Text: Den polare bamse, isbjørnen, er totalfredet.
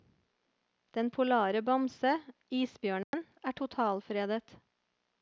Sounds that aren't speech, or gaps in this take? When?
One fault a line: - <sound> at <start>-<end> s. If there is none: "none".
- dropout at 3.0-3.1 s